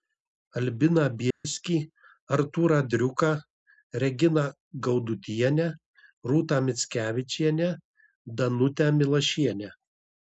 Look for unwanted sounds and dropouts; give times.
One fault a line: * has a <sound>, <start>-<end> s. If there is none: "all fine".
* has a dropout, 1.3-1.4 s